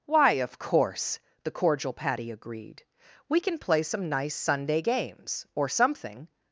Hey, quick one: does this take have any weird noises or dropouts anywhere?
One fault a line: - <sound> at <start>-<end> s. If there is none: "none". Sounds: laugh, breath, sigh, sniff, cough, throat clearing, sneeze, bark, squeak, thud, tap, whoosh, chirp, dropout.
none